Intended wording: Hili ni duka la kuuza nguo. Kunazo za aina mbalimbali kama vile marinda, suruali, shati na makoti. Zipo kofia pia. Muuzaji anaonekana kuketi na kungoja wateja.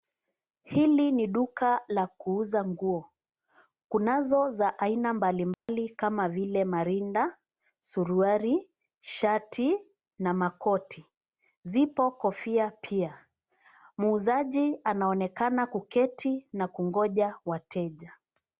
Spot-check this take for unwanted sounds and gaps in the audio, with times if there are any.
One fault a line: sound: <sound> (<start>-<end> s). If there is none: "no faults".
sound: dropout (5.5-5.7 s)